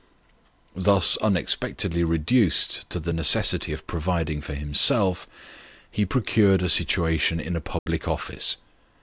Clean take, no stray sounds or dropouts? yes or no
no